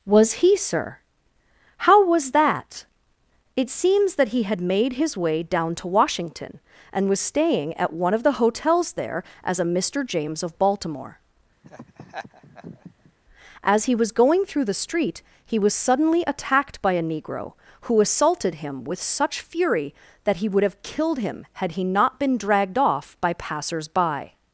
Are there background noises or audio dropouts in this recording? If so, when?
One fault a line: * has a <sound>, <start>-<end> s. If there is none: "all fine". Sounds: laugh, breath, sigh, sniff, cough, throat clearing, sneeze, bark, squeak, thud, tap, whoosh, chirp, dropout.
* has a laugh, 11.6-13.1 s